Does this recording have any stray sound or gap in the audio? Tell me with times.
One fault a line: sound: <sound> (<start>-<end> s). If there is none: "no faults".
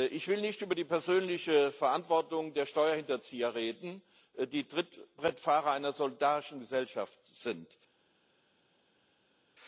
no faults